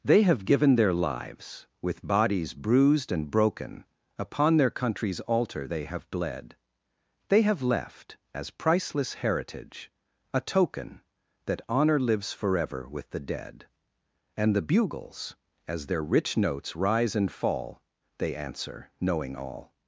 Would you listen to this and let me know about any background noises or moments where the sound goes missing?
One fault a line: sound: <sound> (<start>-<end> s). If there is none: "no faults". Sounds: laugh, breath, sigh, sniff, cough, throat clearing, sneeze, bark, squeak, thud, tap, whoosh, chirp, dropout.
no faults